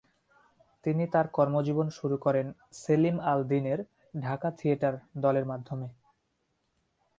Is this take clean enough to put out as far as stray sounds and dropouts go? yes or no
yes